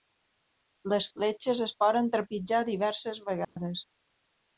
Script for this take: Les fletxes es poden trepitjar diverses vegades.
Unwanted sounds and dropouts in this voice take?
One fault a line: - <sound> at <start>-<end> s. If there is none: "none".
- dropout at 3.4-3.6 s